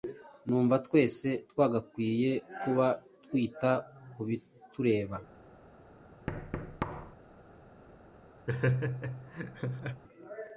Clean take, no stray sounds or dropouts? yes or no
no